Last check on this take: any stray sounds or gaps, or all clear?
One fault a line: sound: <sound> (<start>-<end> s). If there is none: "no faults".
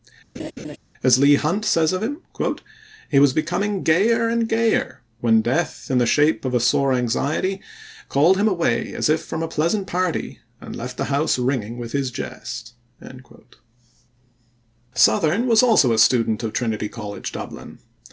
sound: laugh (0.4-0.8 s)